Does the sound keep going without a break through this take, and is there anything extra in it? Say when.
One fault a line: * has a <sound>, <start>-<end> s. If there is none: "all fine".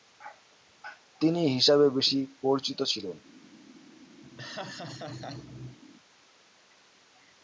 * has a laugh, 4.2-5.8 s